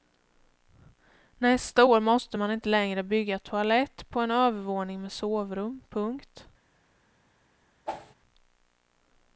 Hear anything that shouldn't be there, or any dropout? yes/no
yes